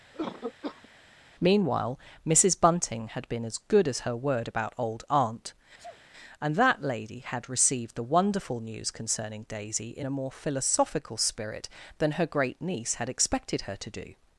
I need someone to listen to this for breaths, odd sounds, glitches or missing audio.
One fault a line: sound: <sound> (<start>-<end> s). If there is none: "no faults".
sound: cough (0.1-0.9 s)
sound: sneeze (5.8-6.0 s)